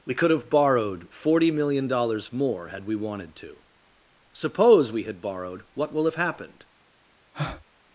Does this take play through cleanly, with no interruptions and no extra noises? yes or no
no